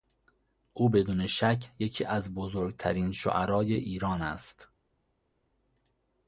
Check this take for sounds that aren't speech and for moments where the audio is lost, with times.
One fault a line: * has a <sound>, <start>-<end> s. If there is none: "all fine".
all fine